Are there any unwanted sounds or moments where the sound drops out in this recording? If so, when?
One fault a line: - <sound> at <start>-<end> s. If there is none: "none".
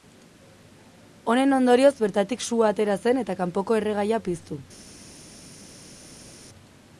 none